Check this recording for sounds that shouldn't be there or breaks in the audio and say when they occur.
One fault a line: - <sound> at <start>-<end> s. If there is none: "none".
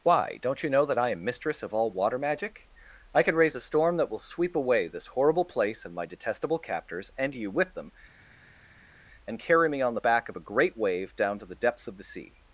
none